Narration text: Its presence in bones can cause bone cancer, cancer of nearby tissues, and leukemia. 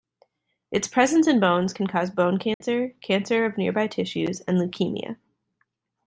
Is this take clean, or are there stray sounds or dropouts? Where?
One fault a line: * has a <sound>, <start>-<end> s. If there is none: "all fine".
* has a dropout, 2.5-2.6 s